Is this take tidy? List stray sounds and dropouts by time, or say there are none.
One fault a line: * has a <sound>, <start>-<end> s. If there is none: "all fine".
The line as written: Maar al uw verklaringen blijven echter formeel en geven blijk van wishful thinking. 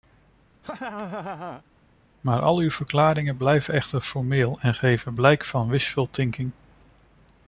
* has a laugh, 0.6-1.6 s